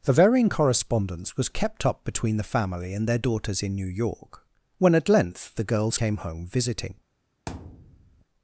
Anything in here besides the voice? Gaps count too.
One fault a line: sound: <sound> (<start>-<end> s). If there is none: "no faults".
sound: thud (7.5-8.3 s)